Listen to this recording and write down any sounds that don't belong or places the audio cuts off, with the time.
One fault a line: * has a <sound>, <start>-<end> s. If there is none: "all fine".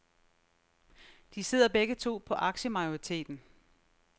all fine